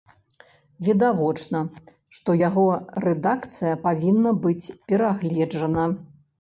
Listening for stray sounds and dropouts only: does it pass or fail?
pass